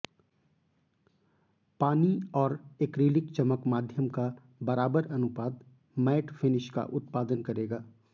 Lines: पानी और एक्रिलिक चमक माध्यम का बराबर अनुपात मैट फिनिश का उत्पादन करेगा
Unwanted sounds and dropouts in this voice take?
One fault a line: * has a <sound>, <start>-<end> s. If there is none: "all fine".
all fine